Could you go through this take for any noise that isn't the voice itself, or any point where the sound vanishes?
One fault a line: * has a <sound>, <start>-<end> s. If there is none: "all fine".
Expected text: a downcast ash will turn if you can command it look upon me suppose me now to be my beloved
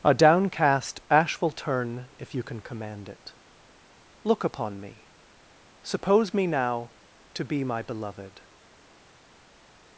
all fine